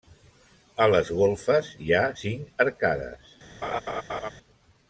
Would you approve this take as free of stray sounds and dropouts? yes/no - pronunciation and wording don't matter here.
no